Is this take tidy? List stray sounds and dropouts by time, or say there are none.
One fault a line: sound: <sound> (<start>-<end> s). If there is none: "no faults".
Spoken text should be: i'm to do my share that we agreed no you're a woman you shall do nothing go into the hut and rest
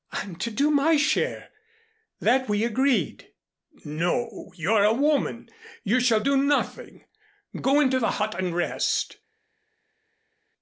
no faults